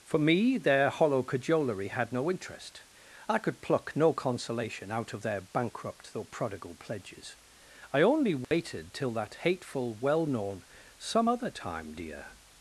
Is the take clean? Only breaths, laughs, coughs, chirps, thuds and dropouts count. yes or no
no